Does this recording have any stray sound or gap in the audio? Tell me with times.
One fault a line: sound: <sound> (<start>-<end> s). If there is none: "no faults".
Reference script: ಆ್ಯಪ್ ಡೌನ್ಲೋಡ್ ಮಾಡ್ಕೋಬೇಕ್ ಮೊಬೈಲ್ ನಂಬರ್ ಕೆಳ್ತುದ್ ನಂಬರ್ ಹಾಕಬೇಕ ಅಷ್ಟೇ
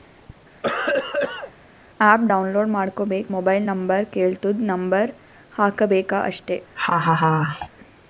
sound: cough (0.6-1.5 s)
sound: laugh (6.7-7.7 s)